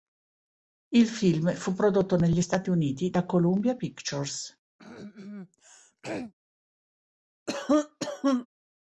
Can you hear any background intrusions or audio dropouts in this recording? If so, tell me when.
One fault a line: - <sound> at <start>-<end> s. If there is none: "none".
- throat clearing at 4.8-6.3 s
- cough at 7.5-8.5 s